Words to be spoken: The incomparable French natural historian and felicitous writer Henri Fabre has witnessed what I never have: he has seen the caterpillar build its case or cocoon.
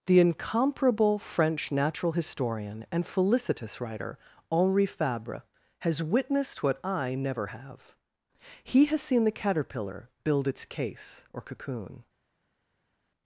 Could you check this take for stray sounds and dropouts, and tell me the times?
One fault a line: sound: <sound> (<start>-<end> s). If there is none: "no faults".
no faults